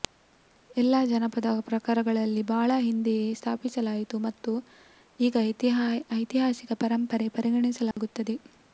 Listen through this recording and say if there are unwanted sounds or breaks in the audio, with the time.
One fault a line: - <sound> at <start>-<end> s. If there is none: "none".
- dropout at 7.9-8.0 s